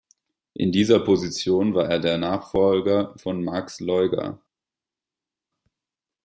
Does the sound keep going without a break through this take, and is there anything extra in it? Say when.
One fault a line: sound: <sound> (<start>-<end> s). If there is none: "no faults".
no faults